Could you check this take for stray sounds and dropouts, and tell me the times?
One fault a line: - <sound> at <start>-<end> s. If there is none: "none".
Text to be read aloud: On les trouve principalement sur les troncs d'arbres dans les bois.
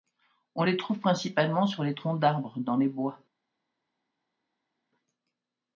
none